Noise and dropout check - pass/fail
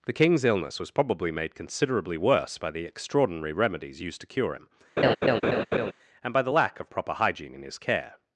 fail